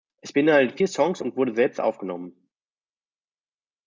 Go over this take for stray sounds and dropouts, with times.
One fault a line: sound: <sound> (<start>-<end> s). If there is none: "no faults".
no faults